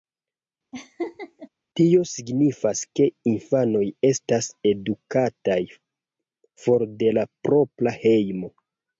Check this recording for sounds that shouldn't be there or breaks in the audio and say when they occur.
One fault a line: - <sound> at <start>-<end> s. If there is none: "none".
- laugh at 0.7-1.5 s